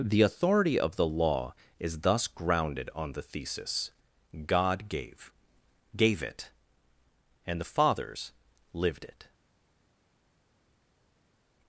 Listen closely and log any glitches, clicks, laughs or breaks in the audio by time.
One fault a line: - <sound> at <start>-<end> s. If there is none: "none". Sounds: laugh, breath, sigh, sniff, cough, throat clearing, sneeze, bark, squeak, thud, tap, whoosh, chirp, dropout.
none